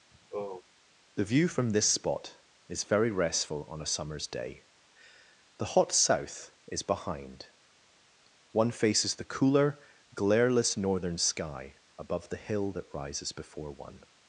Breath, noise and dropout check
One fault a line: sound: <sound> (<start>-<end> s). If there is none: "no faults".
sound: sigh (0.1-0.6 s)